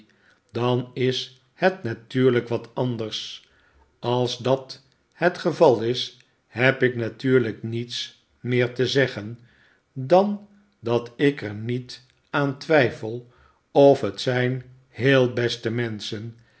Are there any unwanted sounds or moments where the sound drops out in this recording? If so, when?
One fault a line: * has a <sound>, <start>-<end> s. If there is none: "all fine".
all fine